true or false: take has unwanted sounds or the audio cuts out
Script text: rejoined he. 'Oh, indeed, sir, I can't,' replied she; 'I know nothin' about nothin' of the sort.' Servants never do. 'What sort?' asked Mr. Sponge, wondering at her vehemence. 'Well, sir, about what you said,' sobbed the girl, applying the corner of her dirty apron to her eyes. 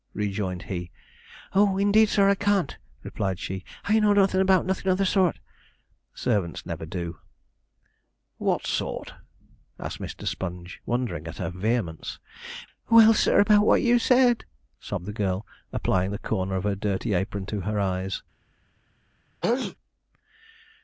true